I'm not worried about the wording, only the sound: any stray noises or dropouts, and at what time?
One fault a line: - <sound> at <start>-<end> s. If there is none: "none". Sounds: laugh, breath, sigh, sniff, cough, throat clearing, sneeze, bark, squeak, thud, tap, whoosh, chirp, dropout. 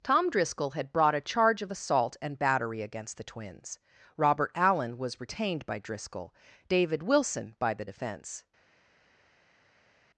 none